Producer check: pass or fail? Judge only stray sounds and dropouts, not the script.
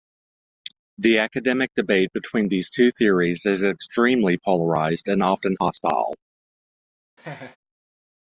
fail